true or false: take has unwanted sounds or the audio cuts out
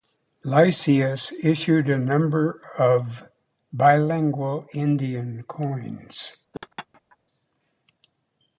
true